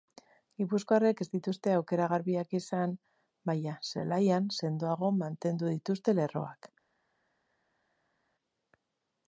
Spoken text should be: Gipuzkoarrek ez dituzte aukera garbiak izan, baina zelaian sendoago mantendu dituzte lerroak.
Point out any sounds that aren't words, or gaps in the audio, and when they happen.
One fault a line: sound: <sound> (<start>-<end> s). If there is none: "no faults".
no faults